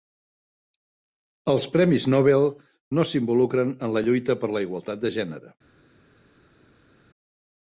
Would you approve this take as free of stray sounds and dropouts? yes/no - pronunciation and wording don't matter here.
yes